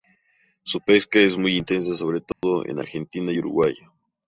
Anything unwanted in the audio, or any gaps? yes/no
yes